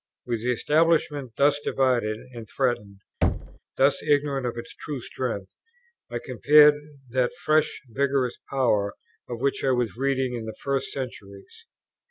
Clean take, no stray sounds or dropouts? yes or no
no